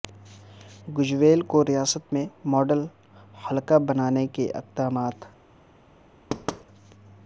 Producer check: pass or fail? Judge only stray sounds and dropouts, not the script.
fail